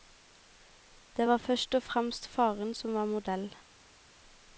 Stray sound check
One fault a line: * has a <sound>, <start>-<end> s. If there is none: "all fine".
all fine